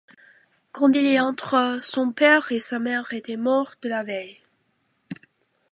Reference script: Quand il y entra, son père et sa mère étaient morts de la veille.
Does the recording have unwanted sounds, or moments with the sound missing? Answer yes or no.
no